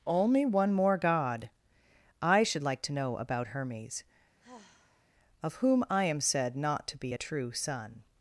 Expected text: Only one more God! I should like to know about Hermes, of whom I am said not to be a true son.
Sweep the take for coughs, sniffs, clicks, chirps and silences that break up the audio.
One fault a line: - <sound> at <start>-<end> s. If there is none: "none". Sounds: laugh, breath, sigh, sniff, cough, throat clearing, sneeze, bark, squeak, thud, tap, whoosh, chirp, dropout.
- sigh at 4.4-5.1 s